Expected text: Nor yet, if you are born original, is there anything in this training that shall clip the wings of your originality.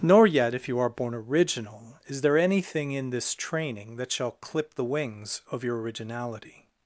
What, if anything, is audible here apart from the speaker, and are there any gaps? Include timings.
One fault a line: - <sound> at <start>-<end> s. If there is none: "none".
none